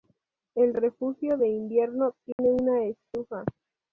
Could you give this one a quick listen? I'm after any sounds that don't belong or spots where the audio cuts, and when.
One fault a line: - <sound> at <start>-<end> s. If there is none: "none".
- dropout at 2.3-2.4 s